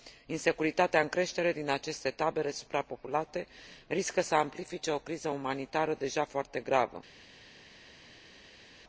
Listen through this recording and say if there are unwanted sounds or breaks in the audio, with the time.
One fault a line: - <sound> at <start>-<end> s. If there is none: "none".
none